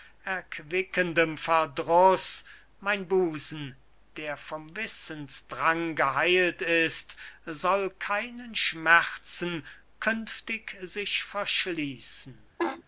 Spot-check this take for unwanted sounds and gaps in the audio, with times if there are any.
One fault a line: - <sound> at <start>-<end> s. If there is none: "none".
- laugh at 12.6-12.8 s